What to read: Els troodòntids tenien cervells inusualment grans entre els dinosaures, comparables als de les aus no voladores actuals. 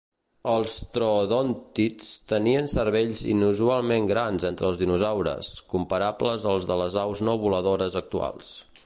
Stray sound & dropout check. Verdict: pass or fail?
pass